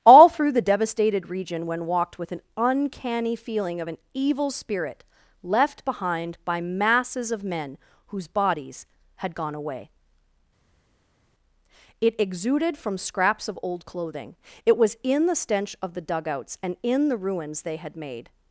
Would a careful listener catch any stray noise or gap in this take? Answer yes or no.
no